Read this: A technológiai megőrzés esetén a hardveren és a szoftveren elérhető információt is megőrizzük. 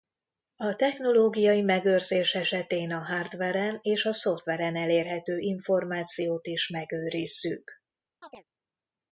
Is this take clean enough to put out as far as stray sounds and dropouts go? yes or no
no